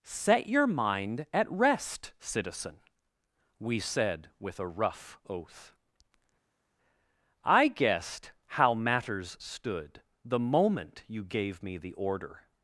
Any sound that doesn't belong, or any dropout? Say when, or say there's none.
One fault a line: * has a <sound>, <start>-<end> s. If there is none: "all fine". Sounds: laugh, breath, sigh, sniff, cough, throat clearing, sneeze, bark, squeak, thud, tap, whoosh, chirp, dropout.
all fine